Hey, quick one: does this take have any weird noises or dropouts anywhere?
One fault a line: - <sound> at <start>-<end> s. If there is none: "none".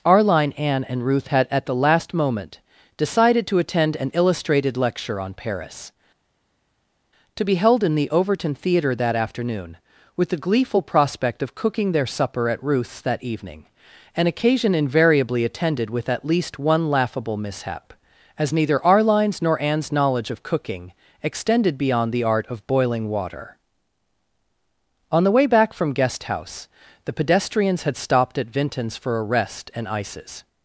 none